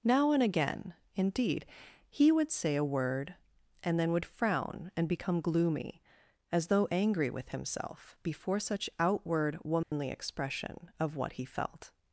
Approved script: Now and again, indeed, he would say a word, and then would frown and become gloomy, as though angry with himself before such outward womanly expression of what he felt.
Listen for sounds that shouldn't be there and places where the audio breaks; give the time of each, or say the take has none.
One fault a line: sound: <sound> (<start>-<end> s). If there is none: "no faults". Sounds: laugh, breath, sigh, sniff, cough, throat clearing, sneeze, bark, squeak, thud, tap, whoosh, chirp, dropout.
sound: dropout (9.8-9.9 s)